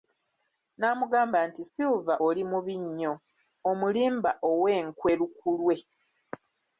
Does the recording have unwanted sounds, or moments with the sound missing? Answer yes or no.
no